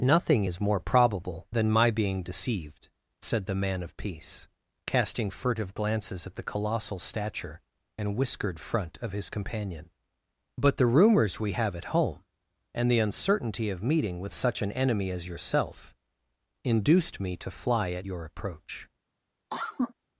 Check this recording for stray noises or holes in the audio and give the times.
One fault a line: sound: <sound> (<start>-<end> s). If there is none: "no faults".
sound: cough (19.5-19.9 s)